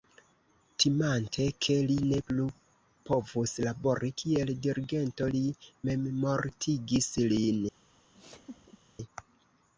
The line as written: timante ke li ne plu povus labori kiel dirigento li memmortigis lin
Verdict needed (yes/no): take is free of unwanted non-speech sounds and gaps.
no